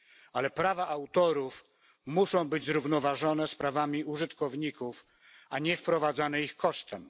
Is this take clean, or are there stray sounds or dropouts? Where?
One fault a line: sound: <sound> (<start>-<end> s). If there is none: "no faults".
no faults